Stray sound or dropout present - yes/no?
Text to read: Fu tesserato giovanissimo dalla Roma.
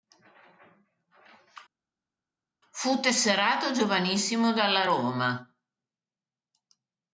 no